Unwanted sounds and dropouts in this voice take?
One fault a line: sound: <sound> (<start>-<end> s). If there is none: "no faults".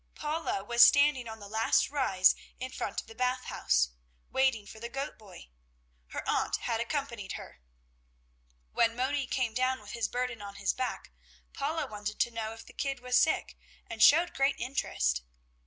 no faults